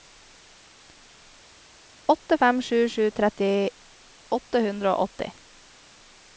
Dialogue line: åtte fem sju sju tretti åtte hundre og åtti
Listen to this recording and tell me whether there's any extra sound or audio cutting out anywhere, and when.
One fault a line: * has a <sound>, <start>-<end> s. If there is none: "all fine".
all fine